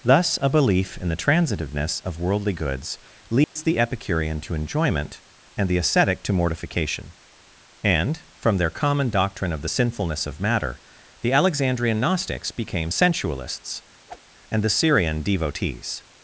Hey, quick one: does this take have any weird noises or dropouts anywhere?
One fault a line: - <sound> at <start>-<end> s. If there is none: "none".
- dropout at 3.4-3.6 s
- whoosh at 14.1-14.2 s